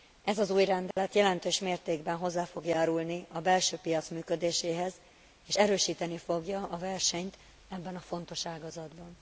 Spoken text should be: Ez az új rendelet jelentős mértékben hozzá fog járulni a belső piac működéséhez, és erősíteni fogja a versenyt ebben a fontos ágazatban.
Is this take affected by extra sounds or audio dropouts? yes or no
yes